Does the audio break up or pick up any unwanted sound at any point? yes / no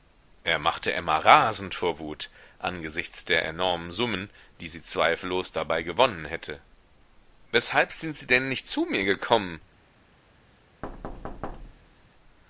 yes